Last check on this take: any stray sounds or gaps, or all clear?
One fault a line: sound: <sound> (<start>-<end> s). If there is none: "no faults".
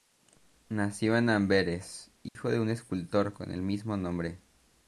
sound: dropout (2.3-2.4 s)